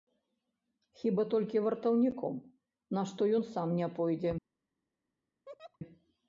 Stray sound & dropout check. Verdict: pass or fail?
fail